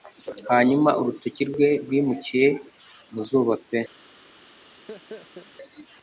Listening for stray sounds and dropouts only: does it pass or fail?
fail